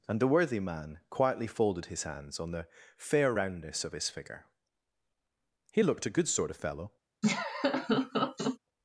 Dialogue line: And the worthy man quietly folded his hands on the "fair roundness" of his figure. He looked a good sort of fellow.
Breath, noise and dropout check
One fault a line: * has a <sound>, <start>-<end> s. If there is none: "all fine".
* has a laugh, 7.2-8.6 s